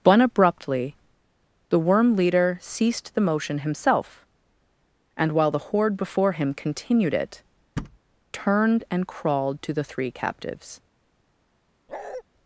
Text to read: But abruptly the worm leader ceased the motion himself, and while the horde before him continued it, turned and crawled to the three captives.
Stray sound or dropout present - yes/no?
yes